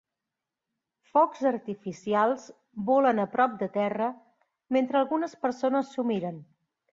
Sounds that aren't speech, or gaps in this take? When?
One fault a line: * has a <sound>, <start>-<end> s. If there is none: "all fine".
all fine